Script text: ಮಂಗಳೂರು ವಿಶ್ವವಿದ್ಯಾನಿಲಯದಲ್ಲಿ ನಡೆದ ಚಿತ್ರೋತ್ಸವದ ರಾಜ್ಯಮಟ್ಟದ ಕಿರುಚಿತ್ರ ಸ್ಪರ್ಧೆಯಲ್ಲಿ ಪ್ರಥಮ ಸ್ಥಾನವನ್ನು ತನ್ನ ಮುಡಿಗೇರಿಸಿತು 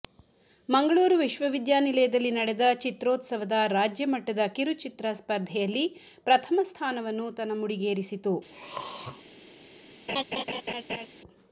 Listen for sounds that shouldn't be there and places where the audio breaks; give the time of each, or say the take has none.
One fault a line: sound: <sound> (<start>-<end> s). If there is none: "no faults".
sound: throat clearing (8.5-9.2 s)
sound: laugh (10.1-11.1 s)